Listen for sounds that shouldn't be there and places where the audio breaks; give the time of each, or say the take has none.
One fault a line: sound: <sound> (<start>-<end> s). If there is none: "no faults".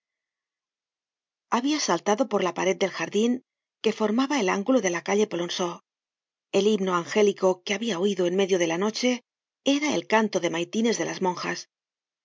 no faults